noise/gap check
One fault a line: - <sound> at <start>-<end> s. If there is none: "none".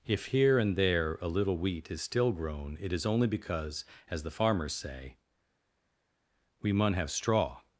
none